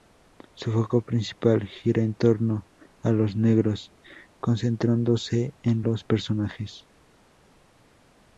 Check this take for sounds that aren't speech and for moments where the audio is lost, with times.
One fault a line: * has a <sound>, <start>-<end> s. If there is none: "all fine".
all fine